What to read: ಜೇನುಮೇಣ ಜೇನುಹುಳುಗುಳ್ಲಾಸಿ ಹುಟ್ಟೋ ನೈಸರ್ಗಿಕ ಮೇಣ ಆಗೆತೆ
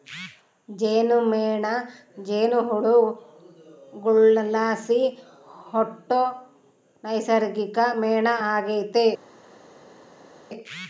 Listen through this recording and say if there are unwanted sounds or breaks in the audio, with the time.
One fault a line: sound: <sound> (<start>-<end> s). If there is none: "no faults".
no faults